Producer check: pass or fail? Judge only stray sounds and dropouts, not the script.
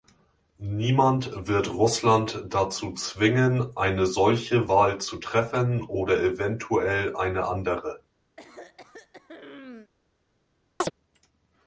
fail